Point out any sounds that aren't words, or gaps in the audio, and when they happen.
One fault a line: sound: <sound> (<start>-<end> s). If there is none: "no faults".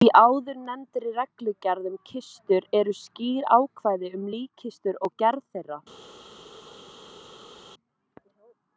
no faults